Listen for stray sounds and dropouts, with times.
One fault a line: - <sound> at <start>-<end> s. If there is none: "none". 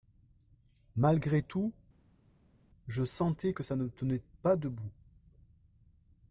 none